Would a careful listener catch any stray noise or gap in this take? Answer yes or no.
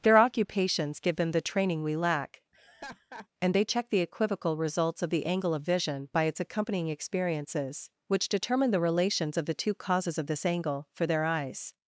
yes